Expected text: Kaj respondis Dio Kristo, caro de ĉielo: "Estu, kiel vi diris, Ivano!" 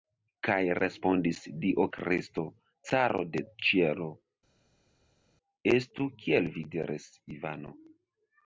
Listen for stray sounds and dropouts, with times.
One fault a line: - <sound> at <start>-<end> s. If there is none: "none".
none